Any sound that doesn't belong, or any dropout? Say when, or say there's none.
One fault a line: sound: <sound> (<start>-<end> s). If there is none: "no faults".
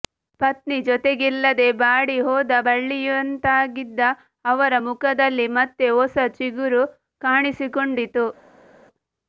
no faults